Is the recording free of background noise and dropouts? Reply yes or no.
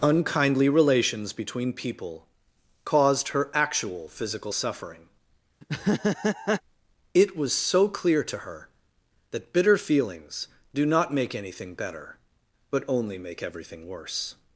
no